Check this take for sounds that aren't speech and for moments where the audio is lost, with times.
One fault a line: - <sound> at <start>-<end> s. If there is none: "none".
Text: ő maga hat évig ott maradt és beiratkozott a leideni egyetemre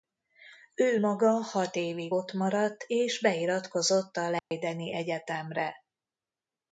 - dropout at 4.4-4.5 s